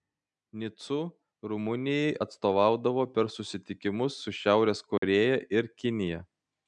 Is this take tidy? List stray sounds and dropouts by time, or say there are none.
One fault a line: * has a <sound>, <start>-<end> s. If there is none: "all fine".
* has a dropout, 5.0-5.0 s